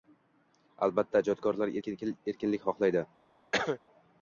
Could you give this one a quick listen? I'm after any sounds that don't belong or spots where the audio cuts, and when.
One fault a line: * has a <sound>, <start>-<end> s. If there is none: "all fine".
* has a cough, 3.5-3.8 s